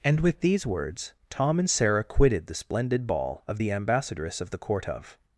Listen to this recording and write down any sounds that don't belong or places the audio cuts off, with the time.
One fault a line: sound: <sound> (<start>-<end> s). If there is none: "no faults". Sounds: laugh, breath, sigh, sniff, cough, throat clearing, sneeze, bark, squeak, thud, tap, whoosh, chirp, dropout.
no faults